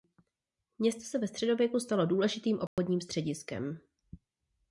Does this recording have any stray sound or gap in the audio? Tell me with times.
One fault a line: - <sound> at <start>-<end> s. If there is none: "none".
- dropout at 2.7-2.8 s